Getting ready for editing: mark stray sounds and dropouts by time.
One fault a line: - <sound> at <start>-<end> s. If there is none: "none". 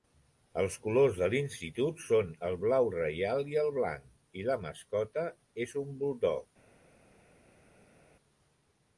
none